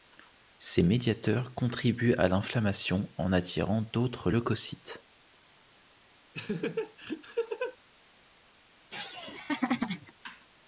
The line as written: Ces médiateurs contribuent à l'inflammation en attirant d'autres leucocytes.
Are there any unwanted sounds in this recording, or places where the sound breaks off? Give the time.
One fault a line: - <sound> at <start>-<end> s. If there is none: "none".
- laugh at 6.3-7.8 s
- laugh at 8.9-10.1 s